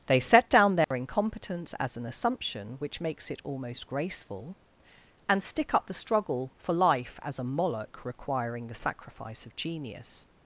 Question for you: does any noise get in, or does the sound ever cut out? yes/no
yes